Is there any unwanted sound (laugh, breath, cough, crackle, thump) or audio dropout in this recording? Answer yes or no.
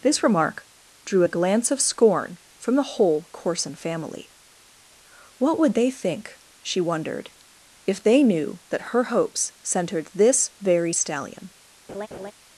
yes